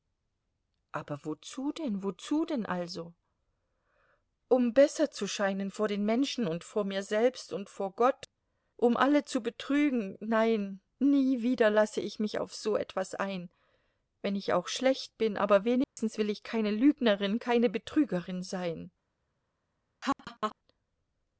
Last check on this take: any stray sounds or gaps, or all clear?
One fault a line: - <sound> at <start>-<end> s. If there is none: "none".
- dropout at 15.8-16.0 s
- laugh at 20.0-20.6 s